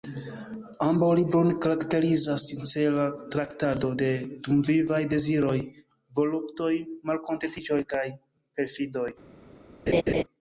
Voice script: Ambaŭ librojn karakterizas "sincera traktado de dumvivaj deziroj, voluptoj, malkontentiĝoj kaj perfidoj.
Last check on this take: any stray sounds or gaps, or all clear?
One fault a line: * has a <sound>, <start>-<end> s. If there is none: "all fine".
* has a laugh, 9.9-10.2 s